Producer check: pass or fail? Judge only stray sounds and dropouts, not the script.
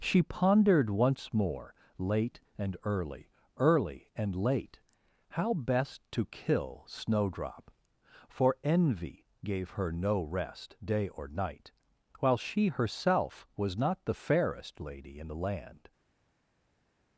pass